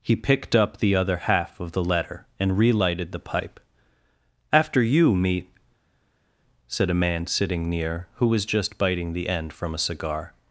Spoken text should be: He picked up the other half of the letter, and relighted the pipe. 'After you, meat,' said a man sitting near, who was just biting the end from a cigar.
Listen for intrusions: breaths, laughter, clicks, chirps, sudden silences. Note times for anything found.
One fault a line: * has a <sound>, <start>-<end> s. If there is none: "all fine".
all fine